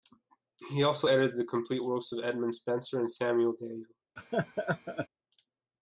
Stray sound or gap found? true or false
true